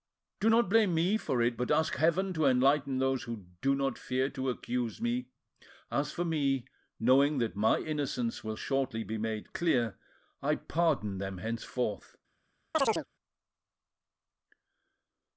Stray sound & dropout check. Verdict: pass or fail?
fail